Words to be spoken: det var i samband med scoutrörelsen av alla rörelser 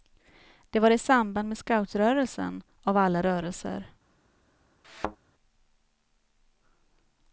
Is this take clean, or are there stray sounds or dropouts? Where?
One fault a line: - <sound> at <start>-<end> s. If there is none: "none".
- thud at 4.8-5.2 s